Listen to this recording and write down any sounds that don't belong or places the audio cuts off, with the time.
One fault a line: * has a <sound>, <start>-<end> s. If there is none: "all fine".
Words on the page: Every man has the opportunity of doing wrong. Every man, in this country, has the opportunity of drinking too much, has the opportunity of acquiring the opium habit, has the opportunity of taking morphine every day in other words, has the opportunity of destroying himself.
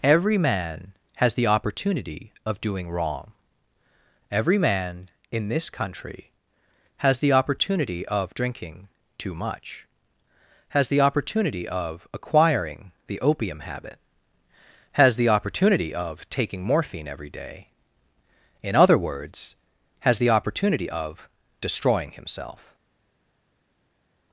all fine